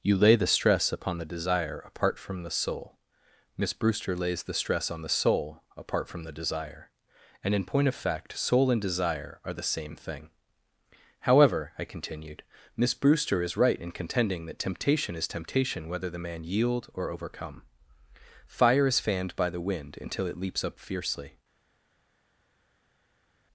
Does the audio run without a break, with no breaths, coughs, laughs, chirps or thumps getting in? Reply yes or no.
yes